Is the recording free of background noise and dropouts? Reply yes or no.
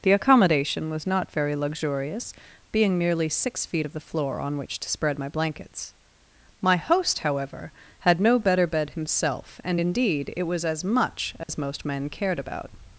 no